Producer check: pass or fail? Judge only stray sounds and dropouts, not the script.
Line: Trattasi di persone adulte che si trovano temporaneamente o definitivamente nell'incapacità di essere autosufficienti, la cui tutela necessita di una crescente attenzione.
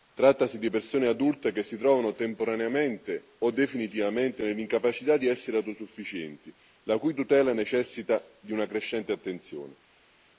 pass